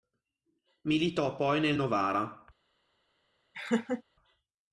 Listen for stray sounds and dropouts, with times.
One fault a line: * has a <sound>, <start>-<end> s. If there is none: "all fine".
* has a laugh, 3.5-4.0 s